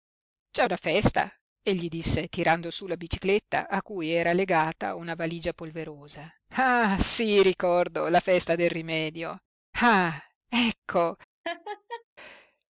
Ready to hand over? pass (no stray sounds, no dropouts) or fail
fail